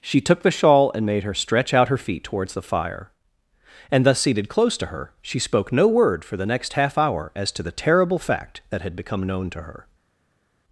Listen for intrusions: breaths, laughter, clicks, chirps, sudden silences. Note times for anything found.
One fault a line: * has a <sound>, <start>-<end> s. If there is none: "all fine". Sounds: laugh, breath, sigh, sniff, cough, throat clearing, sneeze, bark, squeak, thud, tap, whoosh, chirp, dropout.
all fine